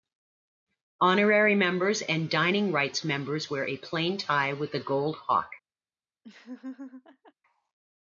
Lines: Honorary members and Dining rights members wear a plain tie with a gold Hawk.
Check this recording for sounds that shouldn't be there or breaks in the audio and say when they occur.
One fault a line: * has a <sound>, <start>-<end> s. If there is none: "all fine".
* has a laugh, 6.2-7.3 s